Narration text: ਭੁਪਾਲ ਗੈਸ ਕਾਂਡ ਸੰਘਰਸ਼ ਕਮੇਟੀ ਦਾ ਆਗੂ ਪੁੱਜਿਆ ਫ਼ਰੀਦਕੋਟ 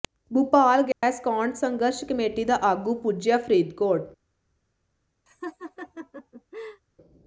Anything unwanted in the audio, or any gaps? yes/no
yes